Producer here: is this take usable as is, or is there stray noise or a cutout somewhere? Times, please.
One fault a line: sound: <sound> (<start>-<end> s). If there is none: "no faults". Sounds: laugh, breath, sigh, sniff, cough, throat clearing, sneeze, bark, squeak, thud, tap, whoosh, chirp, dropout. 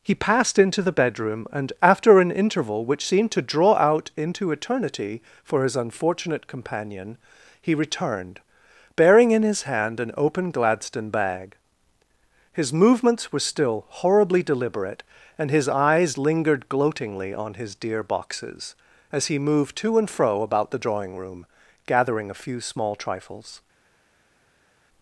no faults